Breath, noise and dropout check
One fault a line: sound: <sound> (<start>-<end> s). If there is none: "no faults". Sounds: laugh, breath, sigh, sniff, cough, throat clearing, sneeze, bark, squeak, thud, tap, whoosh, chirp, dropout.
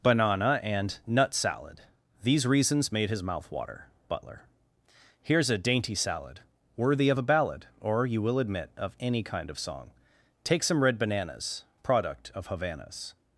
no faults